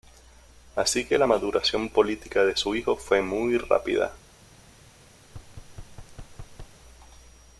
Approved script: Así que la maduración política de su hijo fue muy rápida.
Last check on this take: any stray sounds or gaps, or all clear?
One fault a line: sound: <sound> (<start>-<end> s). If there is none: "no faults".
sound: thud (5.3-6.8 s)